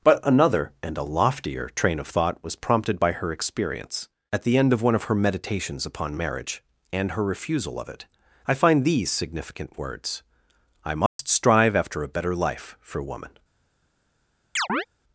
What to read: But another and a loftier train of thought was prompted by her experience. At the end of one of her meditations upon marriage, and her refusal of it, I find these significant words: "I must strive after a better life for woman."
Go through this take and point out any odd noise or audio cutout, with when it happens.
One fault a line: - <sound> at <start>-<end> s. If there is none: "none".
- dropout at 11.1-11.2 s
- chirp at 14.6-14.9 s